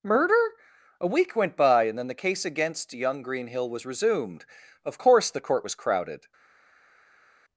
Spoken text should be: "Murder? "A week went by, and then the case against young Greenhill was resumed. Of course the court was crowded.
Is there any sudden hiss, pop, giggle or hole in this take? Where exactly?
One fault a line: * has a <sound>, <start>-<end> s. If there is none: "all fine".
all fine